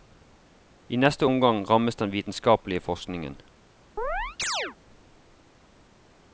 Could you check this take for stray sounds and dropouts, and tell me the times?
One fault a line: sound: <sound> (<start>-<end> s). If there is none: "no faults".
sound: chirp (4.0-4.8 s)